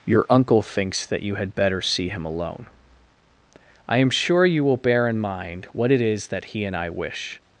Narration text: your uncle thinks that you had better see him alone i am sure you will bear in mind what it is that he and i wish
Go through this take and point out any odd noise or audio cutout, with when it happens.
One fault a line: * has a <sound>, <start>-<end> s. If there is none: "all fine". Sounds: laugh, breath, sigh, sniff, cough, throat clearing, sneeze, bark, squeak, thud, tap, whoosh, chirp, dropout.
all fine